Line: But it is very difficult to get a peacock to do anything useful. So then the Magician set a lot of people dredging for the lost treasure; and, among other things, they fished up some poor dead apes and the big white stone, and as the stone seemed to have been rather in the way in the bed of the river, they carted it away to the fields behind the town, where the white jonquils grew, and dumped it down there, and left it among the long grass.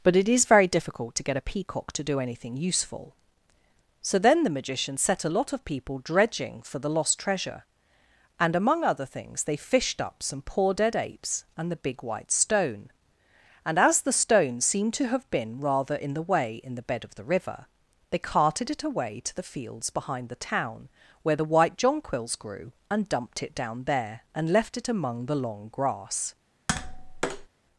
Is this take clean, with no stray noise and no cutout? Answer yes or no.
no